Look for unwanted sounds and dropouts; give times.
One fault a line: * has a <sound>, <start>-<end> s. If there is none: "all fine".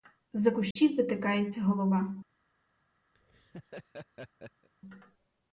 * has a dropout, 0.7-0.8 s
* has a laugh, 3.1-4.7 s